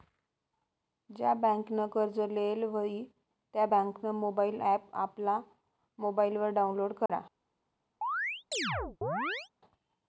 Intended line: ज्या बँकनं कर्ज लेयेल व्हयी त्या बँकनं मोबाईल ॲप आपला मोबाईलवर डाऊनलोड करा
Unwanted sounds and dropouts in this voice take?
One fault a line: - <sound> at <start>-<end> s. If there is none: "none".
- dropout at 7.1-7.1 s
- chirp at 8.0-9.5 s